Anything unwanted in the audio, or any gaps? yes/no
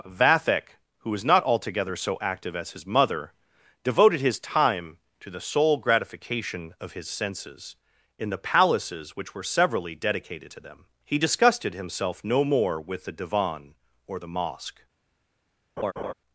yes